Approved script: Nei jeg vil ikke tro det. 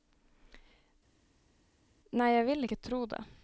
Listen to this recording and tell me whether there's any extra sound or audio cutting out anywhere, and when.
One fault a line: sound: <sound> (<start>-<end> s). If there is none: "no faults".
no faults